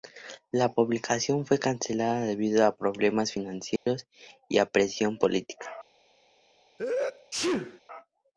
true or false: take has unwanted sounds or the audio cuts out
true